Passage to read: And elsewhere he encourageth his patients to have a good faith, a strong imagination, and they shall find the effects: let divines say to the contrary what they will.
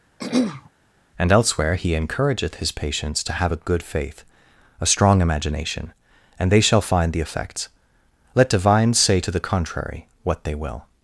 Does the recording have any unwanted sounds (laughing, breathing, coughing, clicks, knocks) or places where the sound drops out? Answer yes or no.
yes